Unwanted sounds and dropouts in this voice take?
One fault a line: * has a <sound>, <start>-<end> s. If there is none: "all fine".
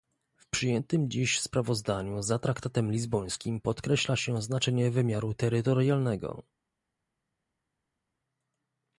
all fine